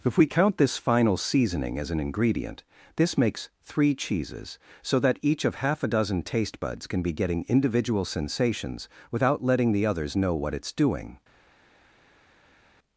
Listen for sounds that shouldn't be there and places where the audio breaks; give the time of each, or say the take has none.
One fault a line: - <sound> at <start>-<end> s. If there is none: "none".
none